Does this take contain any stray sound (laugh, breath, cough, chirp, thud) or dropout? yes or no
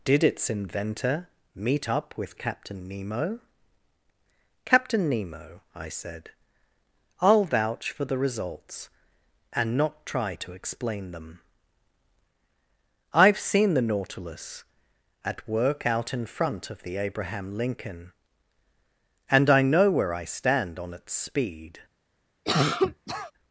yes